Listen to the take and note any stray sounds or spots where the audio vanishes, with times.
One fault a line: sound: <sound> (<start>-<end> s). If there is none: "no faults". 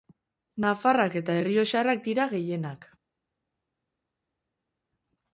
no faults